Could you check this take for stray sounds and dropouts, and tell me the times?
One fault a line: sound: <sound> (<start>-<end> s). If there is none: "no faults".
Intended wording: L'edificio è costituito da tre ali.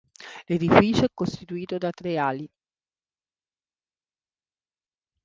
no faults